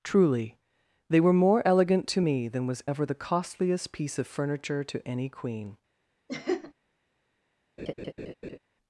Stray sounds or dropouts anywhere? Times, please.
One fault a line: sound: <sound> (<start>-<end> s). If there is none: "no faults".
sound: laugh (6.3-6.7 s)
sound: laugh (7.8-8.6 s)